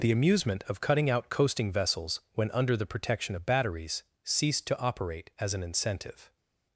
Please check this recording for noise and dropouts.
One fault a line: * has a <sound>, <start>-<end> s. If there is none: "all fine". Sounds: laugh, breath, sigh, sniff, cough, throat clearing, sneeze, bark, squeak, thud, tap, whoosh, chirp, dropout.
all fine